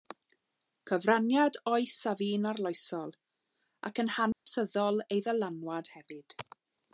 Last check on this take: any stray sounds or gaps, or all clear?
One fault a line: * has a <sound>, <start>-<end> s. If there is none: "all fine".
* has a dropout, 4.3-4.5 s